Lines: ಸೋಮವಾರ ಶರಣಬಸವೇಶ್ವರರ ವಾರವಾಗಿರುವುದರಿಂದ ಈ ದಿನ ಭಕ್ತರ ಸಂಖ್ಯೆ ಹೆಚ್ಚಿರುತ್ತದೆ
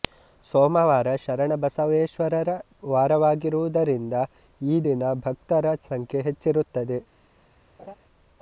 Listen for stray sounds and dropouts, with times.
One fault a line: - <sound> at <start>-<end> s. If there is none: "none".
- laugh at 7.8-8.0 s